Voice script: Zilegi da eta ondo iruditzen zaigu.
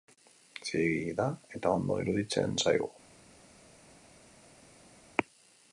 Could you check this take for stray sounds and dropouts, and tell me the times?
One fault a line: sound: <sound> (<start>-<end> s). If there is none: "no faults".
no faults